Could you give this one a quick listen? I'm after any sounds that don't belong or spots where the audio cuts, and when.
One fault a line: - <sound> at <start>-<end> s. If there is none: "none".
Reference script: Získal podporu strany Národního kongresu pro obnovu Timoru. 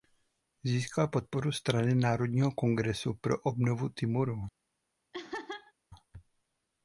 - laugh at 5.1-5.7 s